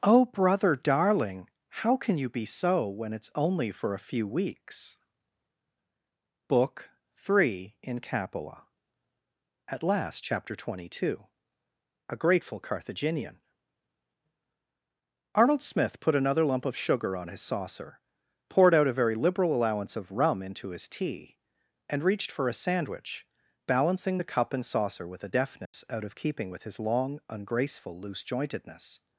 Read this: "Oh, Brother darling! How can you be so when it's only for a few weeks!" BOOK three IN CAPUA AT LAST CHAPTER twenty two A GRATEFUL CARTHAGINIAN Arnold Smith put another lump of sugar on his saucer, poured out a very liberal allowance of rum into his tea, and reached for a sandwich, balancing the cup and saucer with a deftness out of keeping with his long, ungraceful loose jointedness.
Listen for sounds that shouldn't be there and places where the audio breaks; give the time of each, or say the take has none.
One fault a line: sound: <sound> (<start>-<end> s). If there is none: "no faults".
sound: dropout (25.7-25.7 s)